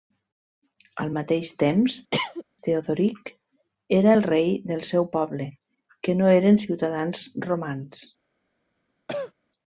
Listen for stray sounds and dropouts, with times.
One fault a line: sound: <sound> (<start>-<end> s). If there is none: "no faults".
sound: cough (2.1-2.4 s)
sound: cough (9.1-9.3 s)